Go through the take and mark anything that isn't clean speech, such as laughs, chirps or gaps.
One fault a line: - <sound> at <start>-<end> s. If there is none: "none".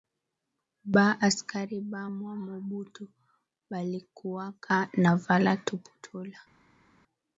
none